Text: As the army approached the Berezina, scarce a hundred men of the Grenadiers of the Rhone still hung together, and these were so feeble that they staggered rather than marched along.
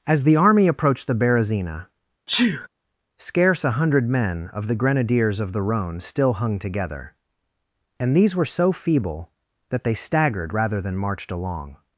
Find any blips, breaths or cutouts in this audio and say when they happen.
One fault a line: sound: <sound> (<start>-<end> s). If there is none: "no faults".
sound: sneeze (2.3-2.7 s)